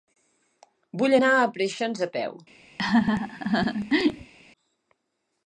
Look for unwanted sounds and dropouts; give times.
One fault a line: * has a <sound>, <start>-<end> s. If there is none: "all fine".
* has a laugh, 2.8-4.3 s